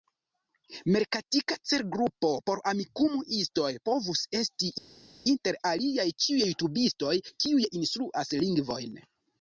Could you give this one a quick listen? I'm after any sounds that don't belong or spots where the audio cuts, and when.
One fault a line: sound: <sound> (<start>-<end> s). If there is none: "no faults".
no faults